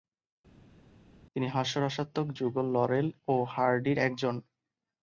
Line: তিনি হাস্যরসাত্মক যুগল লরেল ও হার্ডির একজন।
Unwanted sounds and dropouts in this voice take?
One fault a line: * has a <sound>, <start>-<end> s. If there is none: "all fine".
all fine